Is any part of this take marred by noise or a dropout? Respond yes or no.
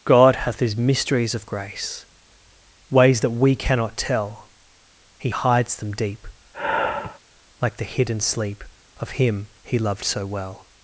yes